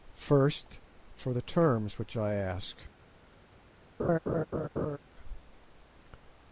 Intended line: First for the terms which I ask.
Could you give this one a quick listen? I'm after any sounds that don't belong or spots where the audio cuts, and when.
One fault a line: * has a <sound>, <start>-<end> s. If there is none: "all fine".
* has a laugh, 4.0-5.0 s